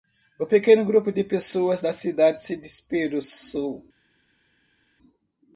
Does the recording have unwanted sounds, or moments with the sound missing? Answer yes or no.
no